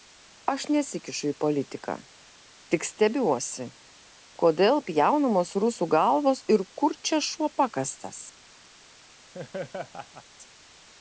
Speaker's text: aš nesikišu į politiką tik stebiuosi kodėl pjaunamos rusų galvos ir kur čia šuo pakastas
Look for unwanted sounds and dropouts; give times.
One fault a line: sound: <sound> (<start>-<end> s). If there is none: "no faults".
sound: laugh (9.3-10.2 s)